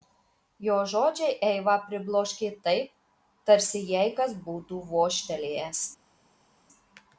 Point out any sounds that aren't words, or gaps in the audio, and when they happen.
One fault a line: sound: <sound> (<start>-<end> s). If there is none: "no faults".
no faults